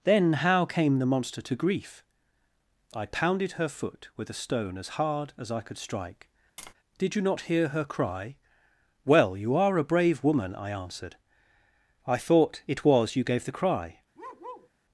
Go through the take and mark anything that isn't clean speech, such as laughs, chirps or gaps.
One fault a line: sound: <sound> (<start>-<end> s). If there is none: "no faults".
sound: tap (6.6-6.7 s)
sound: bark (14.1-14.7 s)